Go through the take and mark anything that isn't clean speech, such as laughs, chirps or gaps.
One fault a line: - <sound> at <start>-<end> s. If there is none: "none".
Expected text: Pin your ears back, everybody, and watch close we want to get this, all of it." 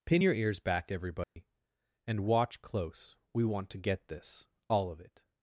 - dropout at 1.2-1.4 s